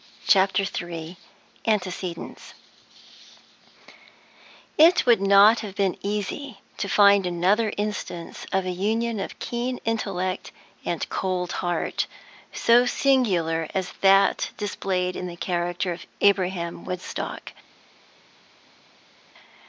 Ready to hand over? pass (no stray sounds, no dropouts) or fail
pass